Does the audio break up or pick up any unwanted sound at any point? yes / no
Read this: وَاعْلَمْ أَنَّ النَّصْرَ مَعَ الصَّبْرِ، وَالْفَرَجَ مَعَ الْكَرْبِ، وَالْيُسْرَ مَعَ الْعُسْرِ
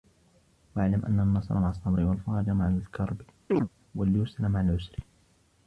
yes